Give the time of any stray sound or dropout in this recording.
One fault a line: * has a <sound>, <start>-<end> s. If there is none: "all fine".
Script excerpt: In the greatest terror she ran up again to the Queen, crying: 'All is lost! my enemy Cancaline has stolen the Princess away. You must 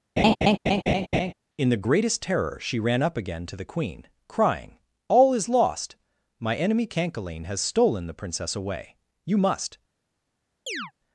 * has a laugh, 0.2-1.3 s
* has a chirp, 10.7-10.9 s